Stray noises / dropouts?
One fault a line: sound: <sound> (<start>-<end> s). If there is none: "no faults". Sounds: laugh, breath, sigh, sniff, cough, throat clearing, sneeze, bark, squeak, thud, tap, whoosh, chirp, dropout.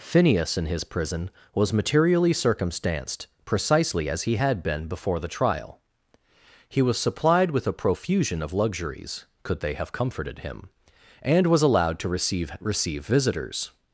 no faults